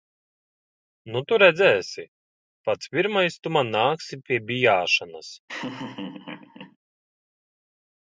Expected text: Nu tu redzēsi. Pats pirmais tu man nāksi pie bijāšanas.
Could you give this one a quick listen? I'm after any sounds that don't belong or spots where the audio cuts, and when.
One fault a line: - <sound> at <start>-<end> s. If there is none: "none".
- laugh at 5.5-6.8 s